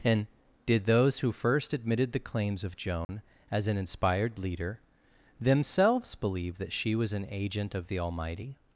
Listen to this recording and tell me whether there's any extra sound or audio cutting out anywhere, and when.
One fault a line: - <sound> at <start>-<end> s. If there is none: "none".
- dropout at 3.0-3.1 s